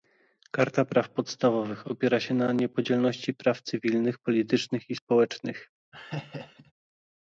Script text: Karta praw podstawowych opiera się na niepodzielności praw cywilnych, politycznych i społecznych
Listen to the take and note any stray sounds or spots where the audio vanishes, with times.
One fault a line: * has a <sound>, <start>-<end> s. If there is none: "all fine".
* has a laugh, 5.9-6.7 s